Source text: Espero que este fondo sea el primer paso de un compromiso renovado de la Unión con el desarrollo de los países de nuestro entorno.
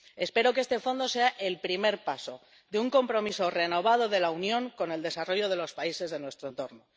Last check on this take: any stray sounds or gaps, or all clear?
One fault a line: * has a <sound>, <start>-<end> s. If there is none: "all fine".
all fine